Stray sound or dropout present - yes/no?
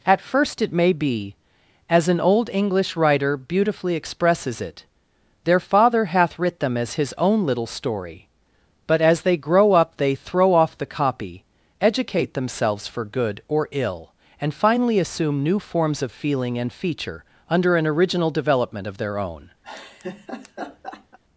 yes